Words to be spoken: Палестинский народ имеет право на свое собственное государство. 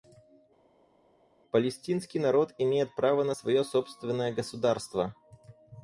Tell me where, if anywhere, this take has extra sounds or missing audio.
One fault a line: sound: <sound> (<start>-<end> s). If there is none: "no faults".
no faults